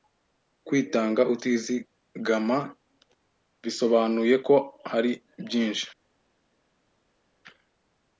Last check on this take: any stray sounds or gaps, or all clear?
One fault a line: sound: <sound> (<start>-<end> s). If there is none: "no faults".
no faults